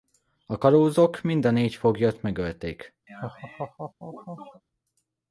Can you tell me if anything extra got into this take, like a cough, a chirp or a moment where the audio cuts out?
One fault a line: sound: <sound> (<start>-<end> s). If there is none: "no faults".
sound: laugh (3.1-4.6 s)